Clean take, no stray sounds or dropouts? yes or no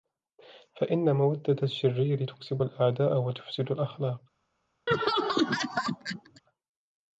no